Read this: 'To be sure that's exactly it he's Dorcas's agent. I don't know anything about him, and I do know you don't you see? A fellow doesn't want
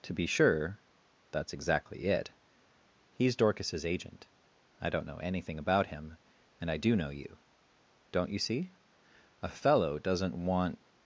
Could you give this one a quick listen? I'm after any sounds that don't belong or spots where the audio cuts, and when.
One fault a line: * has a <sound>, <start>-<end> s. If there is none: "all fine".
all fine